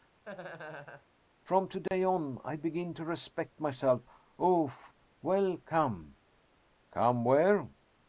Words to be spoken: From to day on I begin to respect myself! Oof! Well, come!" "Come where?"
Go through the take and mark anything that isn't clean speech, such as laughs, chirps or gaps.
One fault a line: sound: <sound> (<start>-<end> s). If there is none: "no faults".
sound: laugh (0.2-1.1 s)
sound: dropout (1.9-1.9 s)